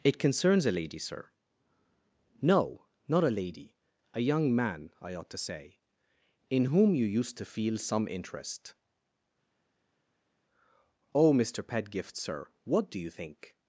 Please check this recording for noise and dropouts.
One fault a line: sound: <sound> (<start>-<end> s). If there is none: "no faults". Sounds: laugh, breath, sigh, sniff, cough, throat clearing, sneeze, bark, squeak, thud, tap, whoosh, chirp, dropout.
no faults